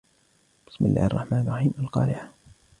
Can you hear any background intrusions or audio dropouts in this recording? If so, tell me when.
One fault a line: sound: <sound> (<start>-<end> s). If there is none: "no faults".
no faults